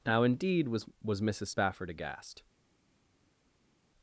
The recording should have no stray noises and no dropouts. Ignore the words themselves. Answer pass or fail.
pass